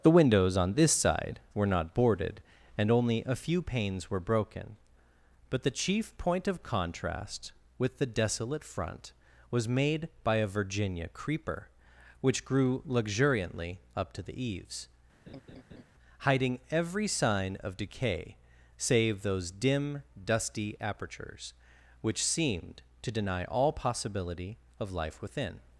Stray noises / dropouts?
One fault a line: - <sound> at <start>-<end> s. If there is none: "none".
- laugh at 15.3-15.8 s